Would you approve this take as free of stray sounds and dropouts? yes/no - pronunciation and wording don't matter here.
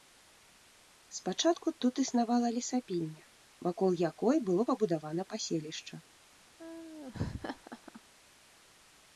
no